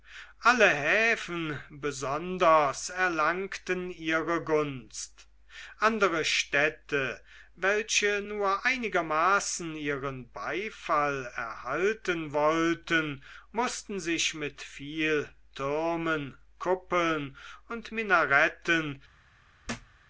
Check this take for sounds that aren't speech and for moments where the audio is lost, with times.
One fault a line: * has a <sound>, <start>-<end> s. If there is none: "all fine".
* has a thud, 19.6-20.0 s